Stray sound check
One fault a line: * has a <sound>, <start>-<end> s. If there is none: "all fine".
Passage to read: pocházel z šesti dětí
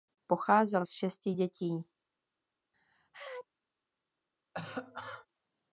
* has a sneeze, 2.7-3.5 s
* has a cough, 4.5-5.3 s